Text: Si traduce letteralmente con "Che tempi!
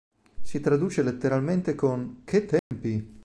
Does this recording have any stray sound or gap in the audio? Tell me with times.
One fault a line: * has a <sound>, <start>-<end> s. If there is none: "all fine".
* has a dropout, 2.6-2.7 s